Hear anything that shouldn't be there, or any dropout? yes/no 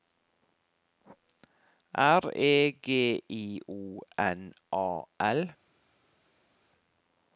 no